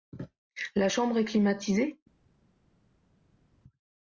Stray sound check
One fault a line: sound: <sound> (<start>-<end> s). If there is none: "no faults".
no faults